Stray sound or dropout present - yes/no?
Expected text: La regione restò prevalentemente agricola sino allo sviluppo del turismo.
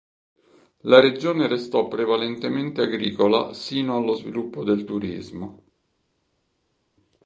no